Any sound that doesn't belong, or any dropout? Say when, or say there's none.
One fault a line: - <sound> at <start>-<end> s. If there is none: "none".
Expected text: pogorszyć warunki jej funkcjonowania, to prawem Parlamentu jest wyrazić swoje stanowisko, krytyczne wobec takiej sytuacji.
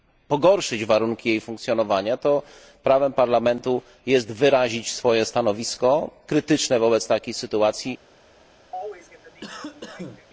- cough at 8.7-10.3 s